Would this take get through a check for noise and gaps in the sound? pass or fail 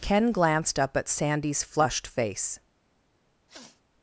fail